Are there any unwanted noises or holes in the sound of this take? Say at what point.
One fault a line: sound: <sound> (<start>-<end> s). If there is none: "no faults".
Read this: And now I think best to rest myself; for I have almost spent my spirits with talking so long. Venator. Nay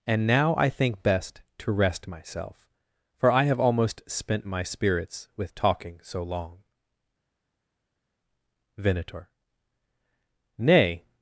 no faults